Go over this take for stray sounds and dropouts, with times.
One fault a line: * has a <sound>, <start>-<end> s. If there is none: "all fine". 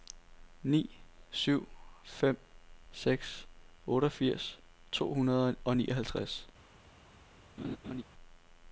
* has a laugh, 7.6-8.0 s